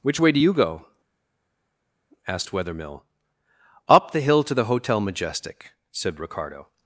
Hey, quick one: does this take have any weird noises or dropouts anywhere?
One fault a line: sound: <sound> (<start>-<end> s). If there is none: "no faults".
no faults